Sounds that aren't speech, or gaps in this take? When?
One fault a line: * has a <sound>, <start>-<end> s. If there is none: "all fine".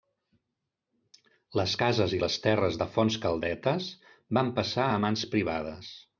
all fine